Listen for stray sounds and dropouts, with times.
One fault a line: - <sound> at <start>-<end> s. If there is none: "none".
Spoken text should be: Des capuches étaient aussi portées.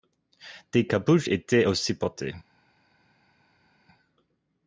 none